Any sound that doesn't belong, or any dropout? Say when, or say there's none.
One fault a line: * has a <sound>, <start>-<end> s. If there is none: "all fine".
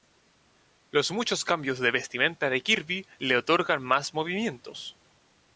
all fine